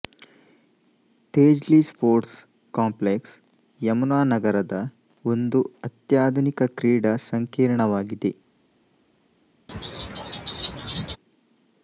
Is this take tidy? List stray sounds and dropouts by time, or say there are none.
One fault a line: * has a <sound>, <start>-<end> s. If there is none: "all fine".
* has a laugh, 9.7-11.2 s